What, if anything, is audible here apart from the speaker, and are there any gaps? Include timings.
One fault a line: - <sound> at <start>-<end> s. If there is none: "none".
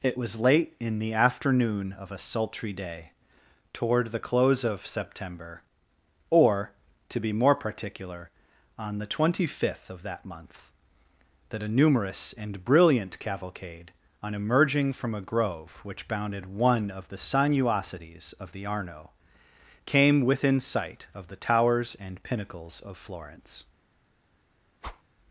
- whoosh at 24.8-25.0 s